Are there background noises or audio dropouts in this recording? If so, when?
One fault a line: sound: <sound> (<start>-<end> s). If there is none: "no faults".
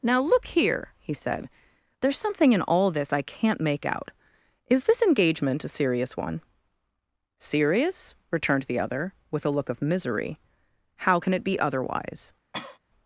sound: cough (12.5-12.8 s)